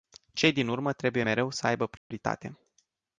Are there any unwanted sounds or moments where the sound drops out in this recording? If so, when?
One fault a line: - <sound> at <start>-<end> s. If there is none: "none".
- dropout at 2.0-2.1 s